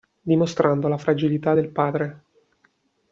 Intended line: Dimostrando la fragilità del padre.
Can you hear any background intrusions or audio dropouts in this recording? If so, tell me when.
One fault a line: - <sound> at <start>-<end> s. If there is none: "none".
none